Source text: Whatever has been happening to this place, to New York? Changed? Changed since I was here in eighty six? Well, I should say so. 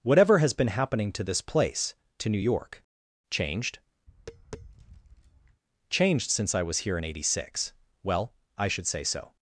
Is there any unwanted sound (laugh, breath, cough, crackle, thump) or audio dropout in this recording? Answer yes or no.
yes